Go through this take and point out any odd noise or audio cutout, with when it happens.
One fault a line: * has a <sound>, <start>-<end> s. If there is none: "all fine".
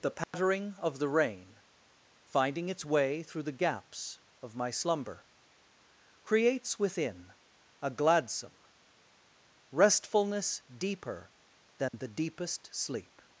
* has a dropout, 0.2-0.3 s
* has a dropout, 11.9-11.9 s